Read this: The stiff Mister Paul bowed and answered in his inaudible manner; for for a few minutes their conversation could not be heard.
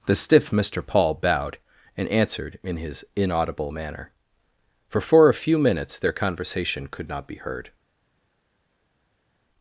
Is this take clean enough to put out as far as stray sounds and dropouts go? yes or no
yes